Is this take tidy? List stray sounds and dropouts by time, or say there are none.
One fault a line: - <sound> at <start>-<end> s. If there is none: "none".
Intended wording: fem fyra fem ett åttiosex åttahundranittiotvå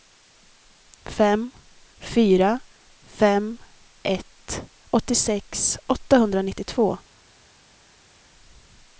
none